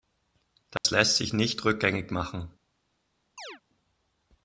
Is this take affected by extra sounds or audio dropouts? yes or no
yes